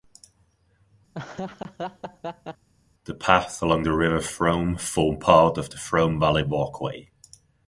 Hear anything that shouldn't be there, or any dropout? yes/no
yes